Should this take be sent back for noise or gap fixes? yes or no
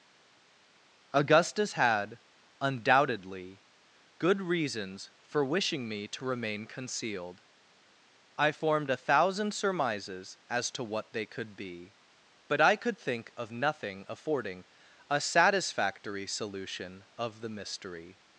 no